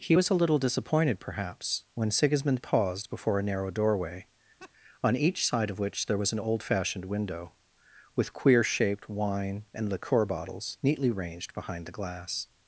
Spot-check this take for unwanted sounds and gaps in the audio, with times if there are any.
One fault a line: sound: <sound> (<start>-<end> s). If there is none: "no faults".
sound: laugh (4.6-4.7 s)